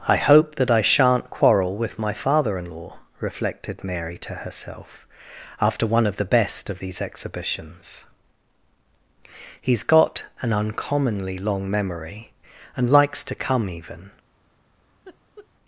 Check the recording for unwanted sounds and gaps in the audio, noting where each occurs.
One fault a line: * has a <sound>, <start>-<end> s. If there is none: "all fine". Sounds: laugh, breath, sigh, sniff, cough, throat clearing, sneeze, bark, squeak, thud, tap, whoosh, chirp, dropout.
* has a laugh, 15.0-15.5 s